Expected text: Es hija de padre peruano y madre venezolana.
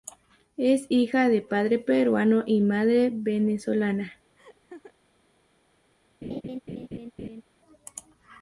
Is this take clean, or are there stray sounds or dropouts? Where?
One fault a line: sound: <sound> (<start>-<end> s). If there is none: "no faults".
sound: laugh (4.4-4.9 s)
sound: laugh (6.2-7.4 s)